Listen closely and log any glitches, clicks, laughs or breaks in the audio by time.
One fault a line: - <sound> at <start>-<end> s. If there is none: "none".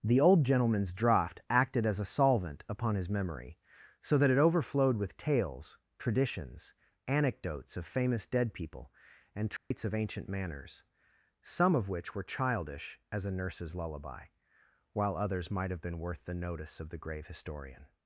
- dropout at 9.6-9.7 s